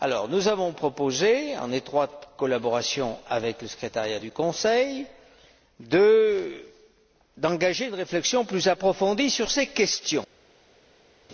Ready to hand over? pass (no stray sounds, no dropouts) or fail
pass